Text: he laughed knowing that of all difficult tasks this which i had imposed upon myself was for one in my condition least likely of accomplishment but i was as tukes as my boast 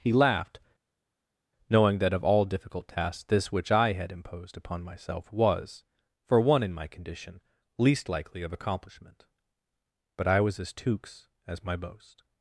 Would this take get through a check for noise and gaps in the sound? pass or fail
pass